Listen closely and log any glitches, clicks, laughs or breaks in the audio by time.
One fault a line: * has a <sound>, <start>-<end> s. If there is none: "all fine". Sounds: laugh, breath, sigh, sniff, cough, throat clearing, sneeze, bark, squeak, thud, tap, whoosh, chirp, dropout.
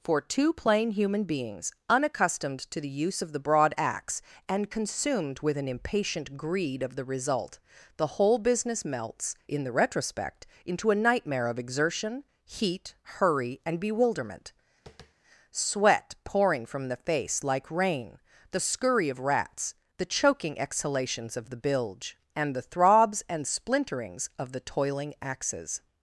* has a tap, 14.9-15.1 s